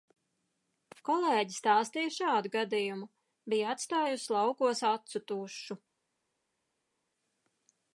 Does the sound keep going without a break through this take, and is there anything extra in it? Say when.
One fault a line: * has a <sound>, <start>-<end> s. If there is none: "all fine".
all fine